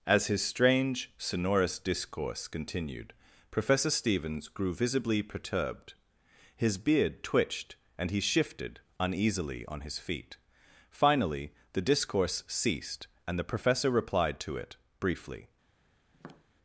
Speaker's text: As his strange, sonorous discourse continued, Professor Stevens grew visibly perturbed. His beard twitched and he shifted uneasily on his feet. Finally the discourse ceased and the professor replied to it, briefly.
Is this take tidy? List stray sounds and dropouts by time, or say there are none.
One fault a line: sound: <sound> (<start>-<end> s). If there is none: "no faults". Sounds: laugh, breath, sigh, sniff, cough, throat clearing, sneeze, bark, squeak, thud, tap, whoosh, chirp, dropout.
sound: tap (16.1-16.5 s)